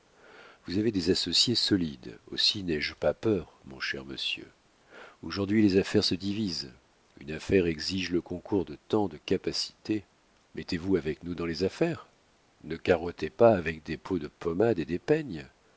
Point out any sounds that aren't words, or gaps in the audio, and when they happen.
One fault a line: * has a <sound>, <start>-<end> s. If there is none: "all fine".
all fine